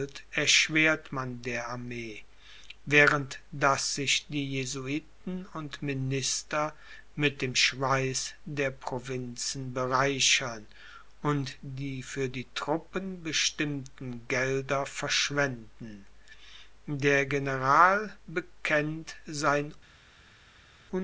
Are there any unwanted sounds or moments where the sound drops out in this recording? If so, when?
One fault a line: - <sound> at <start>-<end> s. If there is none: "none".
none